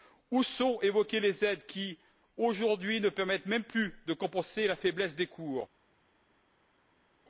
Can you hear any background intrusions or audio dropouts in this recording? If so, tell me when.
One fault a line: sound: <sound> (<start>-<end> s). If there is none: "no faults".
no faults